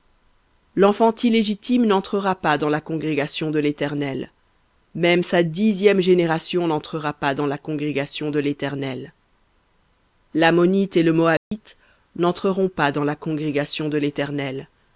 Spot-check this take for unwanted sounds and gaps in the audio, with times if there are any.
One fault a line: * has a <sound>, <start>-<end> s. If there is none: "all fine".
* has a dropout, 11.4-11.5 s